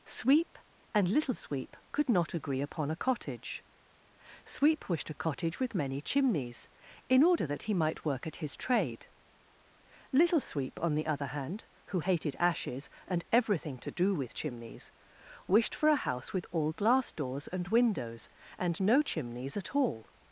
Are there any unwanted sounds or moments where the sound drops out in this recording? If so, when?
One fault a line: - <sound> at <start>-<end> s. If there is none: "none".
none